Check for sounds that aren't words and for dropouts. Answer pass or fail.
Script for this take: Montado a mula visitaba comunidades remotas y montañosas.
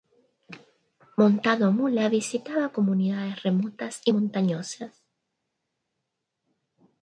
pass